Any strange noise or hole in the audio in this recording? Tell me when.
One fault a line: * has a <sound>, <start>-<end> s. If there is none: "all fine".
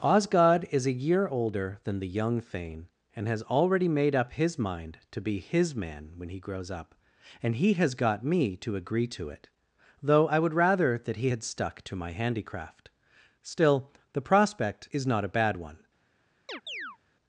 * has a chirp, 16.5-17.0 s